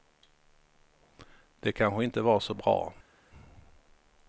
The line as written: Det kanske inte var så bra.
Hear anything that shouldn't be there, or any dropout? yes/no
no